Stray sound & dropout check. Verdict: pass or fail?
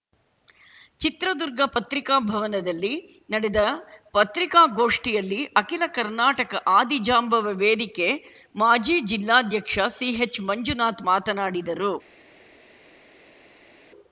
pass